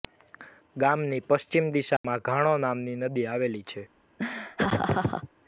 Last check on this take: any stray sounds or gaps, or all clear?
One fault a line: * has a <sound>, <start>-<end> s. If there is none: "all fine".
* has a dropout, 2.0-2.0 s
* has a laugh, 4.2-5.3 s